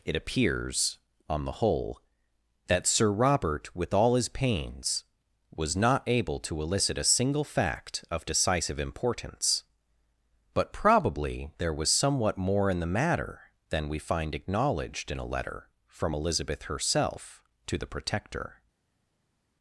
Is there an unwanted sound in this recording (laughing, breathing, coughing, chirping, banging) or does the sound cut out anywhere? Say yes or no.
no